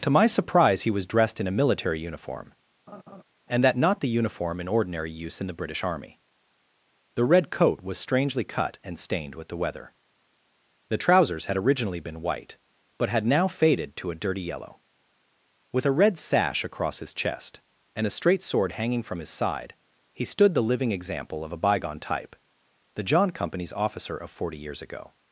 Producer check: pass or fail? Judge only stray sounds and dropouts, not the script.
fail